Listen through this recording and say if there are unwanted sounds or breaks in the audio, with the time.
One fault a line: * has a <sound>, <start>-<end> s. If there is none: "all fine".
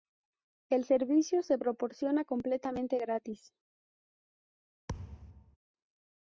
* has a thud, 4.9-5.6 s